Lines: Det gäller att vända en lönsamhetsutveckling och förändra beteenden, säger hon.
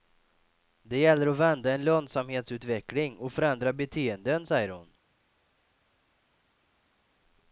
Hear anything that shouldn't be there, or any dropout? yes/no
no